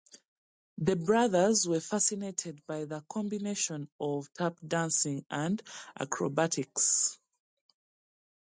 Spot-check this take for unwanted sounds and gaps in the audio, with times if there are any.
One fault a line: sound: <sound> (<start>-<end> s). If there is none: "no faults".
no faults